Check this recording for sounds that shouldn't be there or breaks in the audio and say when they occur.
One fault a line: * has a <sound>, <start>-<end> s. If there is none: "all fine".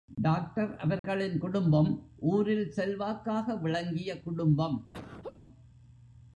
* has a dropout, 1.0-1.0 s
* has a laugh, 4.9-5.4 s